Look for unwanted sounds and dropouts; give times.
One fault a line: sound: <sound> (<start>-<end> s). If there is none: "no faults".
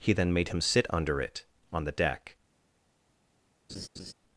sound: laugh (3.7-4.1 s)